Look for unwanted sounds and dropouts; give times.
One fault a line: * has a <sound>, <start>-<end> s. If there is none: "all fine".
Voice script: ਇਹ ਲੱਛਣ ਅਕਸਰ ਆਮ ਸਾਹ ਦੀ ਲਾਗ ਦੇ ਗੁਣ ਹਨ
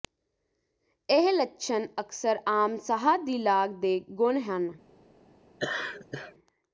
* has a laugh, 5.6-6.3 s